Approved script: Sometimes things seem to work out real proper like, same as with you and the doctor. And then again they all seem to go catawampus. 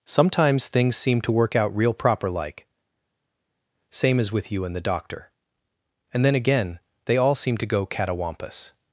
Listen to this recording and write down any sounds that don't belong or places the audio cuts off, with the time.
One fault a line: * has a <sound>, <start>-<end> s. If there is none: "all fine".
all fine